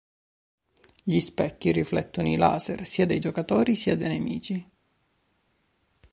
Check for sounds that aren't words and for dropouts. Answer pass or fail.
pass